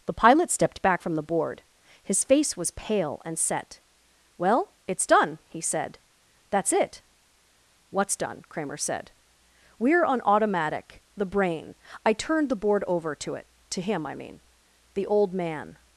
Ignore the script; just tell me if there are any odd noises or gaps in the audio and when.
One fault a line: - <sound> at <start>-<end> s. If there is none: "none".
none